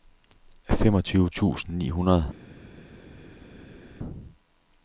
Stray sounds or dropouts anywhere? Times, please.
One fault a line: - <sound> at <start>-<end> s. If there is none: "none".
none